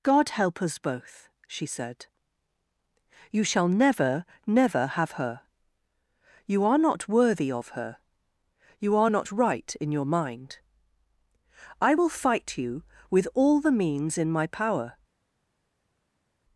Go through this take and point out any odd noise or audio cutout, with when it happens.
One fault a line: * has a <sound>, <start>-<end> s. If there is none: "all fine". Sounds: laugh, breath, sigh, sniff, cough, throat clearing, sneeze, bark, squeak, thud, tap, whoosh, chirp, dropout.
all fine